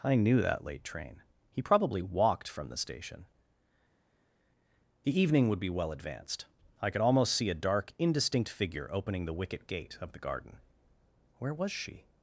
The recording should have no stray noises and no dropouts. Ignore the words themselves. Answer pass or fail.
pass